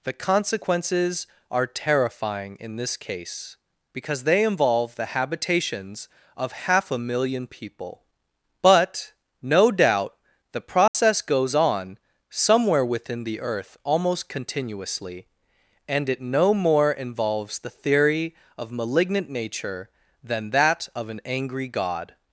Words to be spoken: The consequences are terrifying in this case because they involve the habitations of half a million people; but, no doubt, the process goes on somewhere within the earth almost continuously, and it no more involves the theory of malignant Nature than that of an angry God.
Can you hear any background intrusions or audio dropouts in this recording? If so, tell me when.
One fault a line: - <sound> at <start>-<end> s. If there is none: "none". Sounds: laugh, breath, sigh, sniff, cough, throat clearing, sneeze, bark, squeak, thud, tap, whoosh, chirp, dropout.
- dropout at 10.9-10.9 s